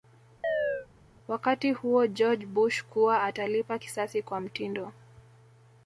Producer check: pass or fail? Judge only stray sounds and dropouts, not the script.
fail